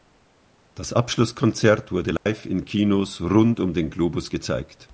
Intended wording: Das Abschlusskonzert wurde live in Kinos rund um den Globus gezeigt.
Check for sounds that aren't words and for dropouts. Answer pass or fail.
fail